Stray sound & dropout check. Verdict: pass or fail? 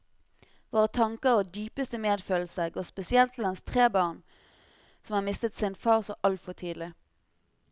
pass